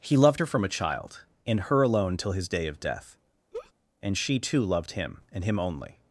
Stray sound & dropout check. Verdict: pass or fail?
fail